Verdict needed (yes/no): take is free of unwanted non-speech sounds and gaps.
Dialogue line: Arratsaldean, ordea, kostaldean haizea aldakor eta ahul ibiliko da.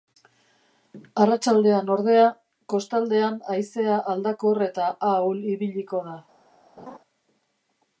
no